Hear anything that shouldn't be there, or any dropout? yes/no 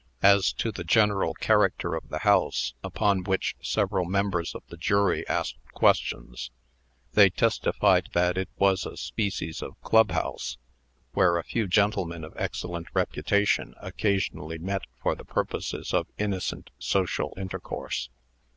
no